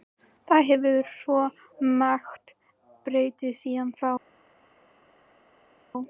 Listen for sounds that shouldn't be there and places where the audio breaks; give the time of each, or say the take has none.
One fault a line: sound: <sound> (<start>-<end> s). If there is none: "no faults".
no faults